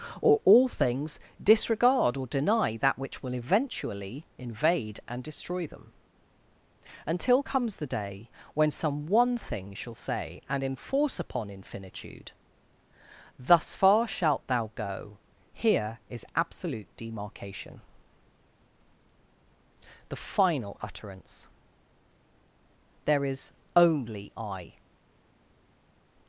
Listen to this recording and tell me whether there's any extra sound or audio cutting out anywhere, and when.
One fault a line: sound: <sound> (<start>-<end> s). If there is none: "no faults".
no faults